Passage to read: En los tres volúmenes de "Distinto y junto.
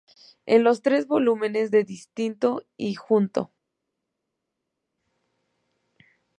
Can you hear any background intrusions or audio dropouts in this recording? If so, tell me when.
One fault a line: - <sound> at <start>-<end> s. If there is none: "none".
none